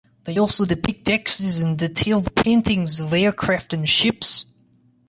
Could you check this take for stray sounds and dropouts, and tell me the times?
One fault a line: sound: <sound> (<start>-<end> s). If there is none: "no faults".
no faults